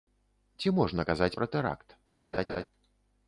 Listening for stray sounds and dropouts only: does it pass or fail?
fail